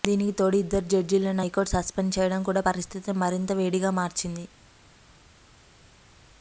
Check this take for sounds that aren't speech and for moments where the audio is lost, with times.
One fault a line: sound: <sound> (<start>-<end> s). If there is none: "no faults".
no faults